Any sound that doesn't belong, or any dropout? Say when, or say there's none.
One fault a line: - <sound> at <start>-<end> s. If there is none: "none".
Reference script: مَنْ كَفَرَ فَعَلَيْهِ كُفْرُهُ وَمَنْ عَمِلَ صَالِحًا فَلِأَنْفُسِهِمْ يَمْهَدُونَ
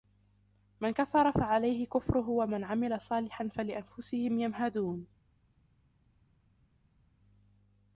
none